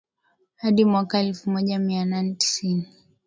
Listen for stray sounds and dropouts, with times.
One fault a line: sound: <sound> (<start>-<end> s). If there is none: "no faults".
no faults